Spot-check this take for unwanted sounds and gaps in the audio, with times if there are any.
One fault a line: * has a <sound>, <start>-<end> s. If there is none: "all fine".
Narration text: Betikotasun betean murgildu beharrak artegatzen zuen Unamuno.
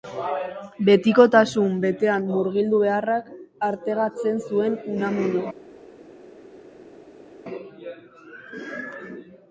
all fine